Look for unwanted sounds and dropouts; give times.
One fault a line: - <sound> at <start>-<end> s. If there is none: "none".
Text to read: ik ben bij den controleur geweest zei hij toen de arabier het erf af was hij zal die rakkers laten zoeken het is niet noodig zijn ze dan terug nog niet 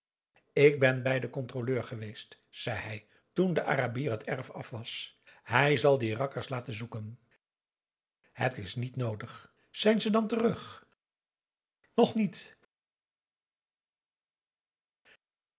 none